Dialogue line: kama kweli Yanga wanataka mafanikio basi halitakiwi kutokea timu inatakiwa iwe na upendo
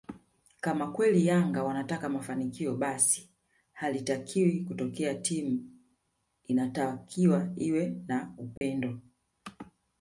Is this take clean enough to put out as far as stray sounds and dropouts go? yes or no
no